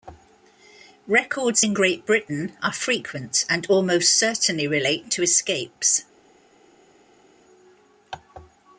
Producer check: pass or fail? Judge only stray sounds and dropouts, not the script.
pass